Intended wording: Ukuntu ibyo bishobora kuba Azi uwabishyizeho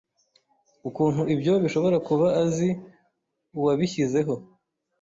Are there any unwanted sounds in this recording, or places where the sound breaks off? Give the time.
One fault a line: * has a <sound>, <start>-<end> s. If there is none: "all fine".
all fine